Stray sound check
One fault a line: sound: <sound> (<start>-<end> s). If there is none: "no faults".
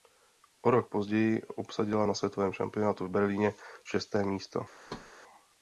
sound: thud (4.9-5.1 s)